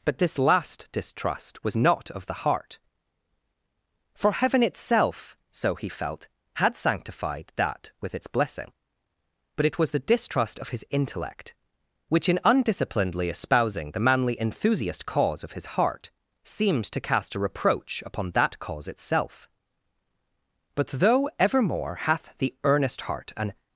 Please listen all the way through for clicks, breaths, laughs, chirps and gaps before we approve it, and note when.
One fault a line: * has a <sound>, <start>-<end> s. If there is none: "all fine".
all fine